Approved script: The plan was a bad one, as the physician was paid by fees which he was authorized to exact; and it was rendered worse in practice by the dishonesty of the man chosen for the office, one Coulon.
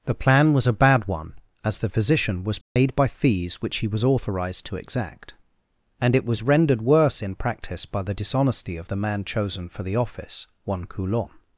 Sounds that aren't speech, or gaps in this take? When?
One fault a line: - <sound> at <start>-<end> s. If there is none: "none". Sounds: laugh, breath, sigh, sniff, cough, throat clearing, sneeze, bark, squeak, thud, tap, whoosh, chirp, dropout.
- dropout at 2.6-2.8 s